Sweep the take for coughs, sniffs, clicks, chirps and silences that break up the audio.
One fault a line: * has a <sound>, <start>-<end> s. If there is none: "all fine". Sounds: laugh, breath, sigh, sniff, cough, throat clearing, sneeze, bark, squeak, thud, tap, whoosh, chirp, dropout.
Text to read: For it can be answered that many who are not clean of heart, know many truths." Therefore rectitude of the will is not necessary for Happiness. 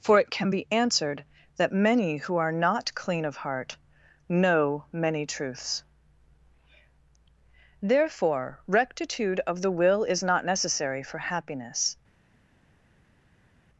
all fine